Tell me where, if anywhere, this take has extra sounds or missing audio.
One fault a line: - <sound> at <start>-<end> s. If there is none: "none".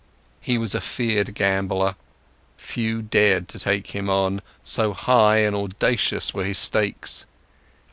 none